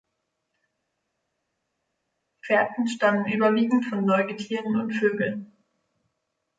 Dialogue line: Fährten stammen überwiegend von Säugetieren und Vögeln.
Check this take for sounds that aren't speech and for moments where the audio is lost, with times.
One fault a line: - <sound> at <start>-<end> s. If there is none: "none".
none